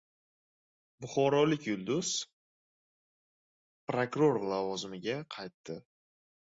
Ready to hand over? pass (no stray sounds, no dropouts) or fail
pass